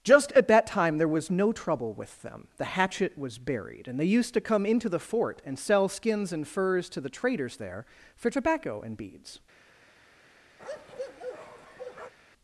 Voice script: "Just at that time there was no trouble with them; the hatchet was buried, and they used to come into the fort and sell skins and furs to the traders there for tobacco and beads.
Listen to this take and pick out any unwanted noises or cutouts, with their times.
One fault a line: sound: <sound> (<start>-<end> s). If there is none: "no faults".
sound: bark (10.6-12.1 s)